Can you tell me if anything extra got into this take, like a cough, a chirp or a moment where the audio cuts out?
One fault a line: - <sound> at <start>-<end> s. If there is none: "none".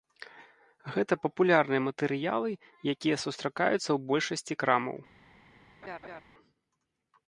- laugh at 5.8-6.2 s